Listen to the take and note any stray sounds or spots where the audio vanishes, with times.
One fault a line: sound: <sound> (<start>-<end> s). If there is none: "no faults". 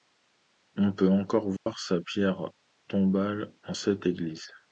sound: dropout (1.6-1.7 s)